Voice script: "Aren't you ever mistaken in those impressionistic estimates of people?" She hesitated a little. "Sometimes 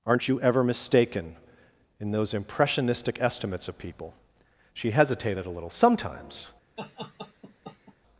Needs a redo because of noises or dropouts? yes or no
yes